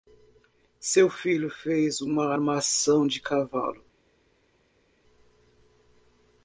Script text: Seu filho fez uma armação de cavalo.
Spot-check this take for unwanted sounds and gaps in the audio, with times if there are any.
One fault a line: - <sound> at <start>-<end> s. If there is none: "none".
none